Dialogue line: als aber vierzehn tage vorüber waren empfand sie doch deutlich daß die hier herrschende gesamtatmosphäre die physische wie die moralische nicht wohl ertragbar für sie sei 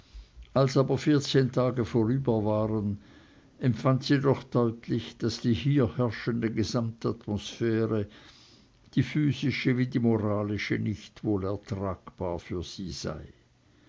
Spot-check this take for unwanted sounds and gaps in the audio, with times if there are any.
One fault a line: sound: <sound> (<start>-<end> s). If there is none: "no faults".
no faults